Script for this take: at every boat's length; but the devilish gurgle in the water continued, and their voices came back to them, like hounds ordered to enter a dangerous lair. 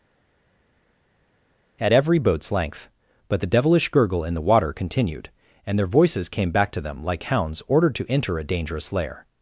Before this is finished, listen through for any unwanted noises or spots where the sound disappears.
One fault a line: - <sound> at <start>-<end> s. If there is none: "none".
none